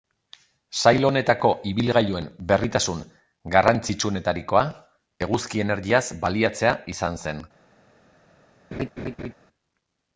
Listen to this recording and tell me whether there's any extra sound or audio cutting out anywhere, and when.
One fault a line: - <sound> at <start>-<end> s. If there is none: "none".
- laugh at 8.7-9.3 s